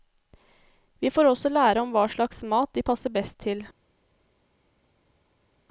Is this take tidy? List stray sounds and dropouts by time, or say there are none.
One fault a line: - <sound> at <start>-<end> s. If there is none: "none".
none